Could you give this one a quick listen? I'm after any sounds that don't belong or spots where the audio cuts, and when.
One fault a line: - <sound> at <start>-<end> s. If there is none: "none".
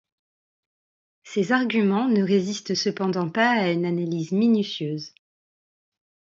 none